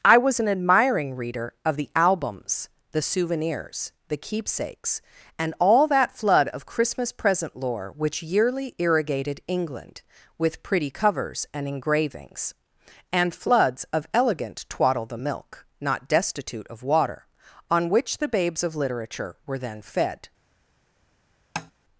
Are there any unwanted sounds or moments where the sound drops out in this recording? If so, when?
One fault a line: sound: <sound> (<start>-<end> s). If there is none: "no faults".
sound: tap (21.6-21.7 s)